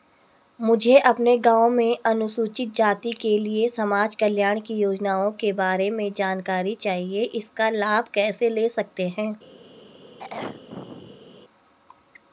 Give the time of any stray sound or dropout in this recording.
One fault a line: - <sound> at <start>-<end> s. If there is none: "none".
- throat clearing at 10.2-11.4 s